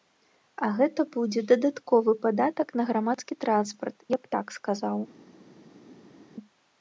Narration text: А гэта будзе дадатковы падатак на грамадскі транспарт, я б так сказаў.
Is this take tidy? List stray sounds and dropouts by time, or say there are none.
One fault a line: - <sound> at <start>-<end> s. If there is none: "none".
none